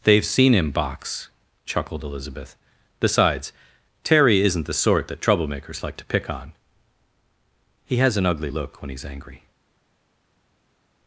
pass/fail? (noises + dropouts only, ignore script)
pass